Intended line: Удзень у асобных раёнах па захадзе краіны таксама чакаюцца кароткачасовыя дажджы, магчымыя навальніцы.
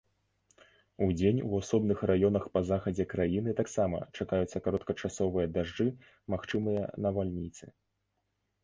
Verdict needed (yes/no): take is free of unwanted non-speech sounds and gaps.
yes